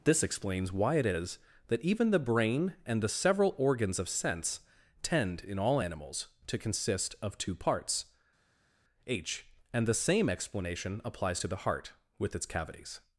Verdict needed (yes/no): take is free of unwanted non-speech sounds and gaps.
yes